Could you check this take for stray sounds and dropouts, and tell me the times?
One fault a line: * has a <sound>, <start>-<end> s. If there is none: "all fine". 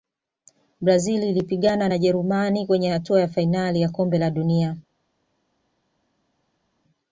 all fine